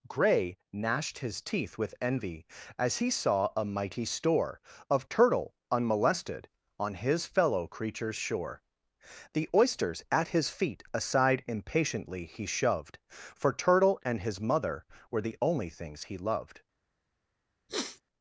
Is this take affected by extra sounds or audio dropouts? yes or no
yes